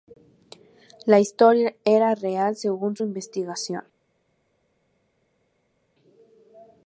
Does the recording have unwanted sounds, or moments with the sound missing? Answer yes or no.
no